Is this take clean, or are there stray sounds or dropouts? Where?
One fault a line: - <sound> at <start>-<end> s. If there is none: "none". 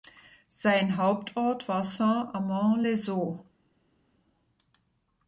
none